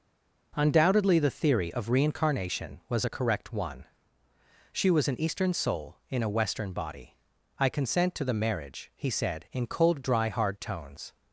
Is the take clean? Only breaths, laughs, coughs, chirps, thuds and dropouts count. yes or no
yes